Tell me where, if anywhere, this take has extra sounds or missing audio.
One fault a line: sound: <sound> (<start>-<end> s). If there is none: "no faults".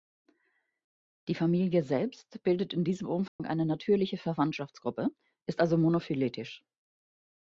sound: dropout (3.3-3.4 s)